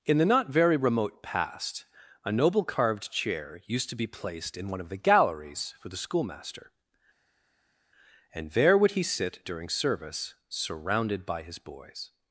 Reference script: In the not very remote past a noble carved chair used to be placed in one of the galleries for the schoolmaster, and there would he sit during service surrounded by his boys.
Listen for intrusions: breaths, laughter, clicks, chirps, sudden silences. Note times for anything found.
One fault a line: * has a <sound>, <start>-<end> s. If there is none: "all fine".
all fine